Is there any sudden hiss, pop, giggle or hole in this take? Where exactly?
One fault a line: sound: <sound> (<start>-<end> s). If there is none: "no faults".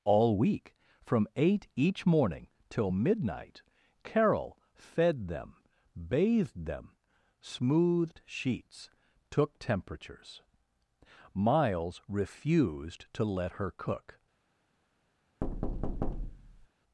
sound: thud (15.4-16.7 s)